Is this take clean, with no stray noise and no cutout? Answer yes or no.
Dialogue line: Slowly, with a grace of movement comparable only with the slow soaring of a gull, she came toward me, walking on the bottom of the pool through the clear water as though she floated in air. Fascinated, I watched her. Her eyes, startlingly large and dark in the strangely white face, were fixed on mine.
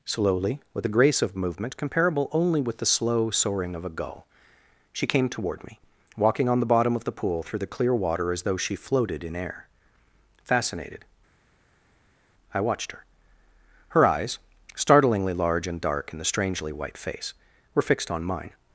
yes